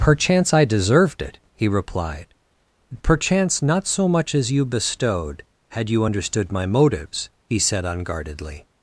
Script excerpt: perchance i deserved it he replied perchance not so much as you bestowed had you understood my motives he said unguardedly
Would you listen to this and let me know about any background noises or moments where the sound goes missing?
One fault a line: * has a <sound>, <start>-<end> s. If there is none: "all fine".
all fine